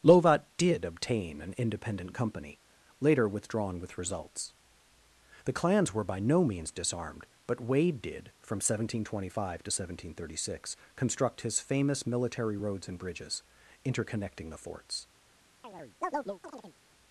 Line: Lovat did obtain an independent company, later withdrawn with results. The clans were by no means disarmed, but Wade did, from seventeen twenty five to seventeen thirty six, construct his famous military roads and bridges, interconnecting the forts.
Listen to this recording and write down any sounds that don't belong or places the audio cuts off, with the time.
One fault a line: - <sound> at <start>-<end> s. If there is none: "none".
- chirp at 15.6-16.8 s